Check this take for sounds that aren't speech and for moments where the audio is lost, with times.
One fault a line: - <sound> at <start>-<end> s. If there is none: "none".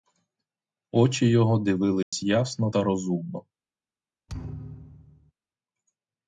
- dropout at 2.0-2.1 s
- thud at 4.3-5.3 s